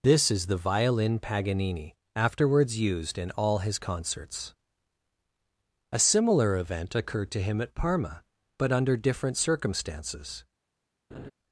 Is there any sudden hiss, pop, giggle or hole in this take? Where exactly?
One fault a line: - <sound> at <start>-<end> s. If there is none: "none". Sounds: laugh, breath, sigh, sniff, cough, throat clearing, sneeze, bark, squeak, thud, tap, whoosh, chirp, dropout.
- laugh at 11.1-11.3 s